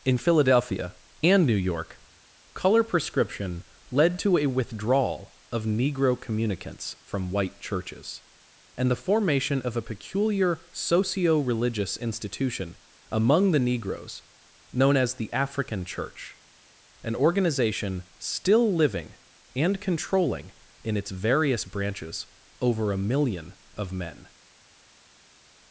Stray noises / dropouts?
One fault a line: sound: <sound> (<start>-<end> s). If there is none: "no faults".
no faults